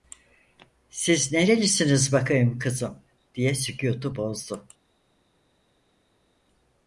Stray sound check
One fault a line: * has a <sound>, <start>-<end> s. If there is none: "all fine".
all fine